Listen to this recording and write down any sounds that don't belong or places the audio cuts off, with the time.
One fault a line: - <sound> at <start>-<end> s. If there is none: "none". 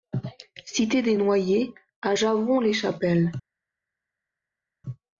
none